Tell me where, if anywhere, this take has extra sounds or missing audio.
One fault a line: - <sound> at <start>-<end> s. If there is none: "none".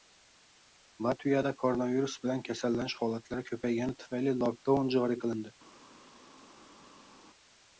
none